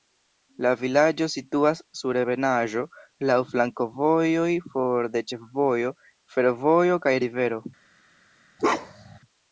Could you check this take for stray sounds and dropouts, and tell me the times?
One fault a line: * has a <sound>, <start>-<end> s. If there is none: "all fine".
* has a bark, 8.6-9.2 s